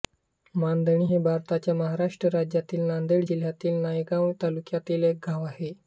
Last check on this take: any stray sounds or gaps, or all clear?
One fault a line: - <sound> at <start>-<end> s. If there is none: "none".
none